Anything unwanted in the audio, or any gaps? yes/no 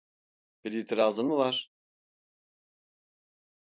no